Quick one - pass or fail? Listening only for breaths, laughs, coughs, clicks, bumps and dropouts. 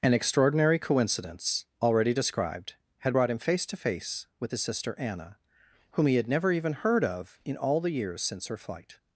pass